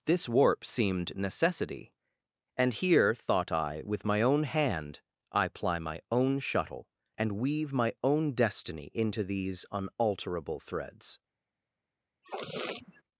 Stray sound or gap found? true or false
true